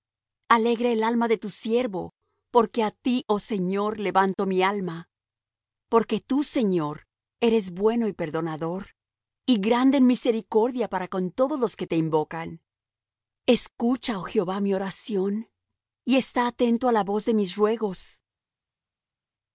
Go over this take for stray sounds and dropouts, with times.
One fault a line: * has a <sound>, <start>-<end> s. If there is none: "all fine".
all fine